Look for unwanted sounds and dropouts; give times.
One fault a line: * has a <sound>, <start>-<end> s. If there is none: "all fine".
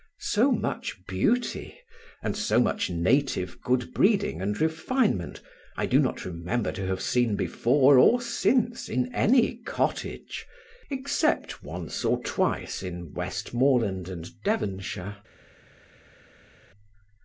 all fine